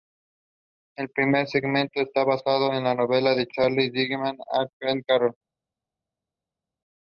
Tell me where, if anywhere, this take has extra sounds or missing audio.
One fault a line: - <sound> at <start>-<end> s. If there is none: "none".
none